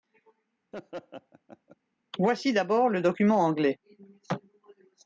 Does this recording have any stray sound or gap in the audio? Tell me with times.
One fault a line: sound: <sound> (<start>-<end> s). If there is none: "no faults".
sound: laugh (0.7-1.8 s)